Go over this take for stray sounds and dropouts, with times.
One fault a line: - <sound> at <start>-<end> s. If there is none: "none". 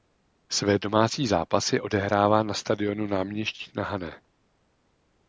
none